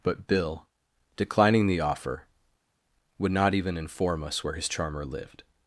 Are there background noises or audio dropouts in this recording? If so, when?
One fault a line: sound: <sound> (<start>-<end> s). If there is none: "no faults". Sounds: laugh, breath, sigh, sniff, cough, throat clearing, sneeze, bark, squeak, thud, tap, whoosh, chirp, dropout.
no faults